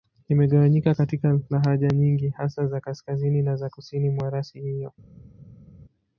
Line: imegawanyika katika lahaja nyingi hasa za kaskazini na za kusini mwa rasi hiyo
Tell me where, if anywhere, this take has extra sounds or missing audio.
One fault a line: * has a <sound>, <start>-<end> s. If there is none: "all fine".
all fine